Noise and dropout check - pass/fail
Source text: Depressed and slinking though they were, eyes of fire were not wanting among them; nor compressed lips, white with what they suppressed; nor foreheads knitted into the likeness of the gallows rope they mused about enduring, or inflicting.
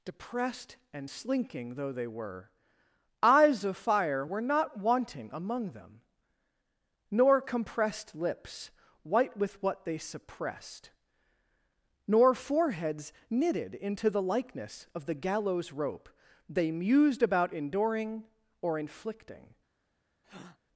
fail